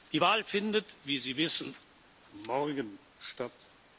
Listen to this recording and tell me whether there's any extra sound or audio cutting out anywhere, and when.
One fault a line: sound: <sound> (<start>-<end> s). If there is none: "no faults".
no faults